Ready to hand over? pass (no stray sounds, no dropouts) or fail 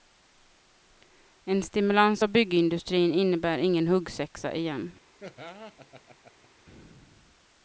fail